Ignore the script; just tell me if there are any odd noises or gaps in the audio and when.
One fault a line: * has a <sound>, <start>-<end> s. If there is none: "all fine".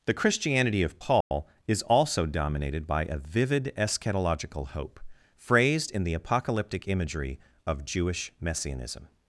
* has a dropout, 1.2-1.3 s